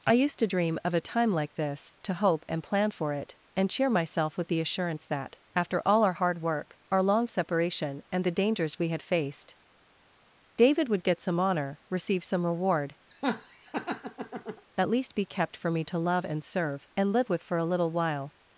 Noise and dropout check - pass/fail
fail